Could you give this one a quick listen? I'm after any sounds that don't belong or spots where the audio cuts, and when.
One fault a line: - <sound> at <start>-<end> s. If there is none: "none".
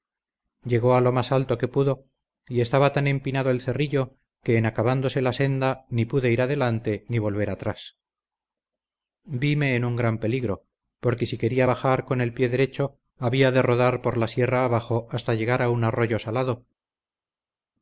none